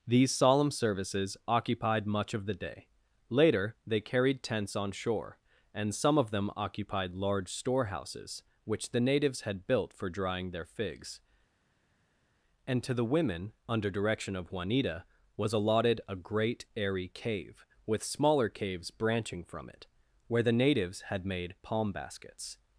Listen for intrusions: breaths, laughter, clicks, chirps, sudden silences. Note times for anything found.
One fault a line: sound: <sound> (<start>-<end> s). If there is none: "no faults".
no faults